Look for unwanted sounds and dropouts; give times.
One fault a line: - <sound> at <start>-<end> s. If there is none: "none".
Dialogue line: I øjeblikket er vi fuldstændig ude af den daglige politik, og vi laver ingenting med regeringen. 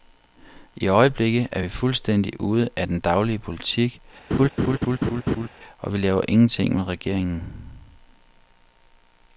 - laugh at 4.3-5.5 s